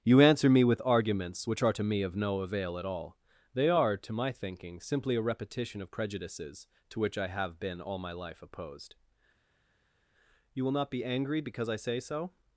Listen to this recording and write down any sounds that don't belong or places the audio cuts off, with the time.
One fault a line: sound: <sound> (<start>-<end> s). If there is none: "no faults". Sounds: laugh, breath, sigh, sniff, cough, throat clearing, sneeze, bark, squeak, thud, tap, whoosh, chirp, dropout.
no faults